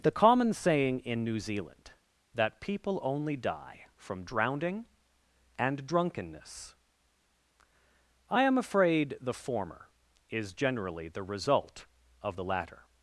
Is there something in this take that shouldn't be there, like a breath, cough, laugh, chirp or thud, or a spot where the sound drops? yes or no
no